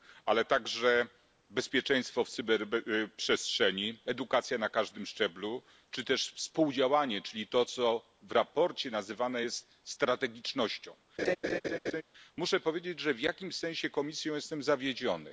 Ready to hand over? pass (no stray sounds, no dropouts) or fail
fail